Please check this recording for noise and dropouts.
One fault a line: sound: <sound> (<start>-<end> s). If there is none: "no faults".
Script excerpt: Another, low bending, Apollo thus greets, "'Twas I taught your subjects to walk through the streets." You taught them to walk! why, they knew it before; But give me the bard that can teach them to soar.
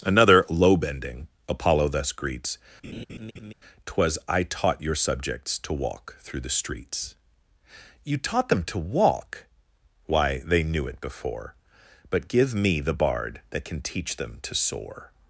sound: laugh (2.8-3.5 s)